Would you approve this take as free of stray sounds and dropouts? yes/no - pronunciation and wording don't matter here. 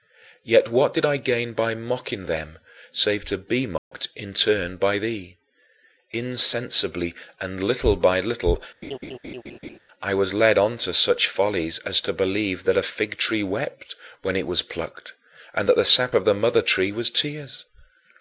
no